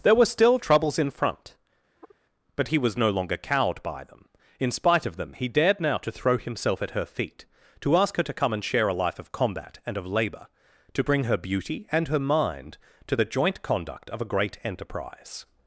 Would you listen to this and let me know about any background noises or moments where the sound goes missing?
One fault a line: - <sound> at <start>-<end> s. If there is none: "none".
- sigh at 2.0-2.1 s